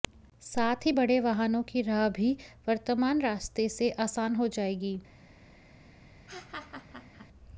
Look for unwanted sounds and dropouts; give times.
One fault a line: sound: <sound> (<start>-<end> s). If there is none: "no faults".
sound: laugh (6.3-7.3 s)